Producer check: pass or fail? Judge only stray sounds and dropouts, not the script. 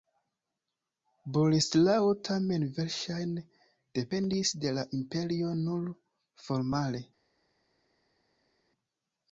pass